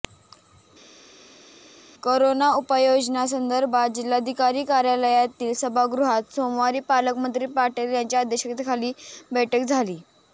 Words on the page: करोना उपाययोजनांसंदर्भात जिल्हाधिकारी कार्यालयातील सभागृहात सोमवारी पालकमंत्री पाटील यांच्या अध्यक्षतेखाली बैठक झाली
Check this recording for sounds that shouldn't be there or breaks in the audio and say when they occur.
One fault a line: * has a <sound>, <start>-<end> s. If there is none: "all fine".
all fine